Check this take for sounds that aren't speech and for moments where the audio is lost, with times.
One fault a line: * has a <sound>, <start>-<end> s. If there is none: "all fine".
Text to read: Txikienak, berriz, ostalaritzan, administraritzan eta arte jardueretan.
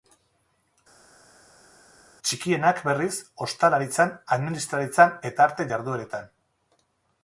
all fine